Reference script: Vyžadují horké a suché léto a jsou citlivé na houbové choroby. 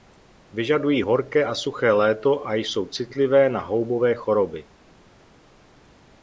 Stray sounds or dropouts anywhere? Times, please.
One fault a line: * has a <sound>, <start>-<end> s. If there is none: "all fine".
all fine